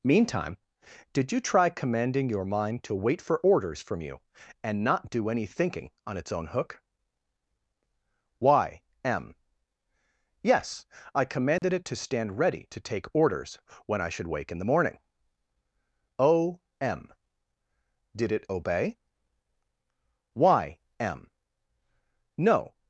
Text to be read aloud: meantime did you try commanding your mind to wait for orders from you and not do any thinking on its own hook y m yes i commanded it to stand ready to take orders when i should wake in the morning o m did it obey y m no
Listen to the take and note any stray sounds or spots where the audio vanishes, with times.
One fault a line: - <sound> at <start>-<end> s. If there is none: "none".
- dropout at 11.6-11.6 s